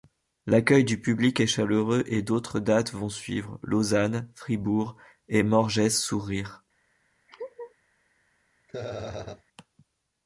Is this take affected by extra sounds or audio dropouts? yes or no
yes